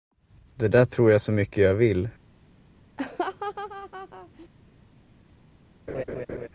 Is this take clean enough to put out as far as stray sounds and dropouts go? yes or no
no